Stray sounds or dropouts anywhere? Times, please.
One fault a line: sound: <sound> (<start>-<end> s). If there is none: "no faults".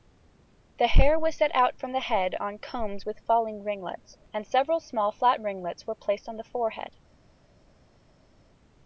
no faults